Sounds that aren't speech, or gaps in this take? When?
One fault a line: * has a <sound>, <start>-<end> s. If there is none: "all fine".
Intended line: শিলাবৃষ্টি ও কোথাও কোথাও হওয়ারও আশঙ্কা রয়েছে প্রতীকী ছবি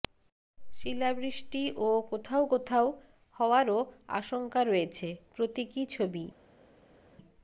all fine